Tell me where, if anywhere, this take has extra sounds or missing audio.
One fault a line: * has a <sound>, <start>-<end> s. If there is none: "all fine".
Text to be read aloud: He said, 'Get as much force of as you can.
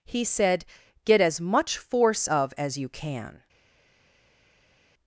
all fine